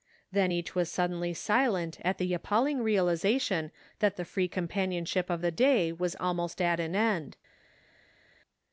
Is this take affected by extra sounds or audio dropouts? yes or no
no